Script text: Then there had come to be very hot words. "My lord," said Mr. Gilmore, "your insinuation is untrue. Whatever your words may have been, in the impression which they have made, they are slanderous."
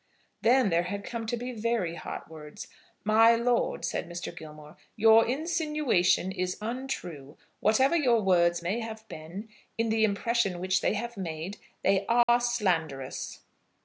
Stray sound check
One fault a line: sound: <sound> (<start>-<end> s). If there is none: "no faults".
sound: dropout (12.2-12.3 s)